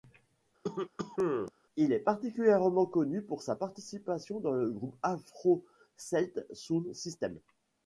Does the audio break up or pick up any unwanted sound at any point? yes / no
yes